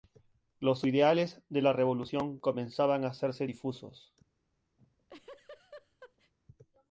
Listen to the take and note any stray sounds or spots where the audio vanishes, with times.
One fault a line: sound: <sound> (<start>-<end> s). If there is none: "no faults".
sound: laugh (4.8-6.3 s)